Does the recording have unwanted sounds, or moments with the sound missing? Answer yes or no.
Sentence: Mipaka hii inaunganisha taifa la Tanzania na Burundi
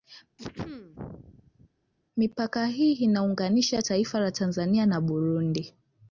yes